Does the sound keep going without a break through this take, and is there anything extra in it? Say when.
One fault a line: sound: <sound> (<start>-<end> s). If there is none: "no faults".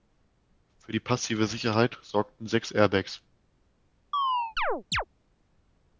sound: chirp (4.1-5.0 s)